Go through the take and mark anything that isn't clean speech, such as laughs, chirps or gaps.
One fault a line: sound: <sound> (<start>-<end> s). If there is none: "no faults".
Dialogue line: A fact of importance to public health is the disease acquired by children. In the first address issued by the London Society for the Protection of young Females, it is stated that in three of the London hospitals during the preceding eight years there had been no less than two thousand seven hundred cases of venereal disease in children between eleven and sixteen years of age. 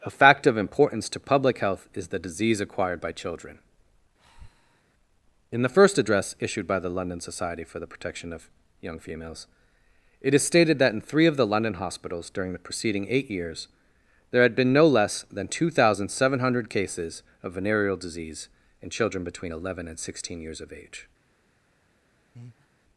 sound: breath (4.2-4.8 s)
sound: breath (22.3-22.7 s)